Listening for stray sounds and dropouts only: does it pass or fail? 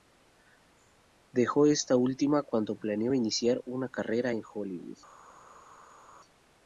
pass